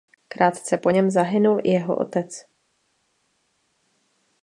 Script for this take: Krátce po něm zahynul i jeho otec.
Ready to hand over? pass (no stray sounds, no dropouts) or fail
pass